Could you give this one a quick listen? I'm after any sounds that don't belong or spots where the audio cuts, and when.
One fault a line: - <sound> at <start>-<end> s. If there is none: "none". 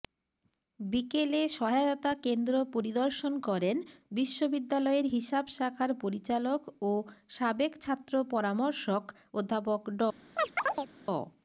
- chirp at 10.4-10.9 s